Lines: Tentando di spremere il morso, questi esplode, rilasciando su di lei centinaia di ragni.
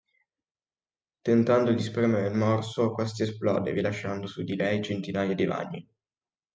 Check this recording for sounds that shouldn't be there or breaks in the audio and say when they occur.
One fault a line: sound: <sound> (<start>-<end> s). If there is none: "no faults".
no faults